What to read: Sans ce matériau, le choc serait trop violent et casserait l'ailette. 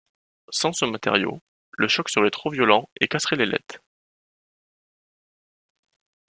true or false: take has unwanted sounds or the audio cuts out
false